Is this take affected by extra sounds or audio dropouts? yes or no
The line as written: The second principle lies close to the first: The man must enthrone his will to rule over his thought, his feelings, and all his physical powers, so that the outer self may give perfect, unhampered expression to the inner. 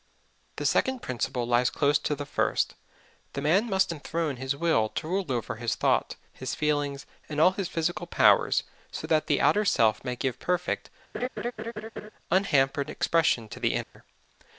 yes